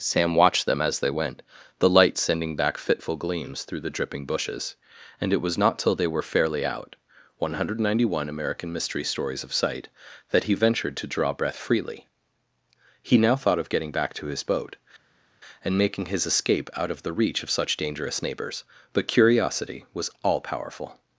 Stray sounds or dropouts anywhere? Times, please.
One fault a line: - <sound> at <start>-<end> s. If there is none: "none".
none